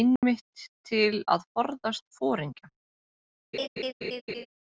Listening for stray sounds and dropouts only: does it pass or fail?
fail